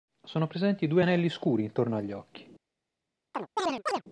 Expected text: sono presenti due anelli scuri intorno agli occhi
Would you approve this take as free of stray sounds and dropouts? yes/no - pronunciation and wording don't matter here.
no